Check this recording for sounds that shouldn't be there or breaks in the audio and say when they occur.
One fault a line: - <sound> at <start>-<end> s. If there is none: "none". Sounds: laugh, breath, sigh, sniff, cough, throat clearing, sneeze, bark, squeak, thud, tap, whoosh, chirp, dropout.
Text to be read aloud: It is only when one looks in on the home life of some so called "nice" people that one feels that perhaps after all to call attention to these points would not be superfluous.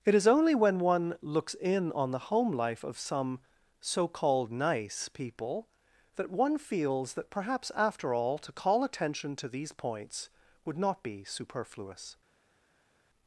none